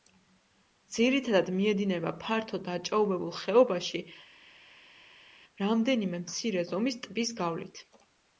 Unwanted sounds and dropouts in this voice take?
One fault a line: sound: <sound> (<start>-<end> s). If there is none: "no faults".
no faults